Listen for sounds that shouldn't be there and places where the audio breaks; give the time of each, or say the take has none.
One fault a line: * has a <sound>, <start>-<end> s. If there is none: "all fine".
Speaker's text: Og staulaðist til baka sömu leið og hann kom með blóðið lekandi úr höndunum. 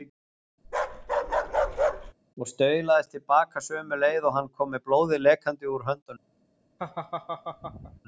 * has a bark, 0.6-2.1 s
* has a laugh, 6.8-8.0 s